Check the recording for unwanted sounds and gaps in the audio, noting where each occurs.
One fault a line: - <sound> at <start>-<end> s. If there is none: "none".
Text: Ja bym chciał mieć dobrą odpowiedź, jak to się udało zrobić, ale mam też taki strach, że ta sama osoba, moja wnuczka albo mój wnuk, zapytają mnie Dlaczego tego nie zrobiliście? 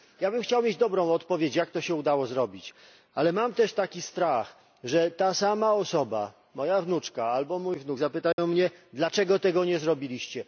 - dropout at 8.3-8.4 s